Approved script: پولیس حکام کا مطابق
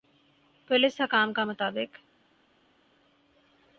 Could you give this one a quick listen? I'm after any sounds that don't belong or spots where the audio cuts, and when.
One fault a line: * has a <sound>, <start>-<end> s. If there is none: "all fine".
all fine